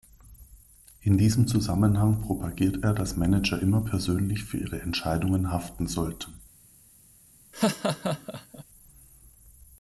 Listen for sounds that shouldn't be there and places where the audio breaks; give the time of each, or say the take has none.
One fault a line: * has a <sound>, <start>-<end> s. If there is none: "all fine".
* has a laugh, 7.5-8.6 s